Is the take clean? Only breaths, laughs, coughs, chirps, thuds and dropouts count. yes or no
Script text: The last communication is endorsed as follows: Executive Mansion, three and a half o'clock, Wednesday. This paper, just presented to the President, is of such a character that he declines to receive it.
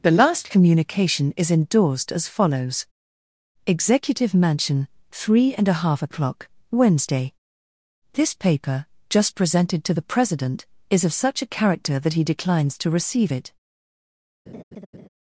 no